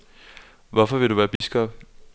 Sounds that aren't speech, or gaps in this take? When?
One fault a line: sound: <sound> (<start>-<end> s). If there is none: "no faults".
sound: dropout (1.4-1.4 s)